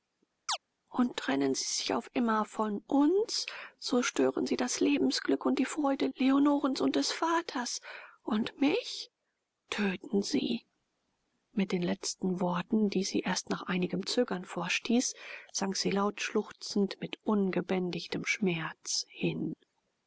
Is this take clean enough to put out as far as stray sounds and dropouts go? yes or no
no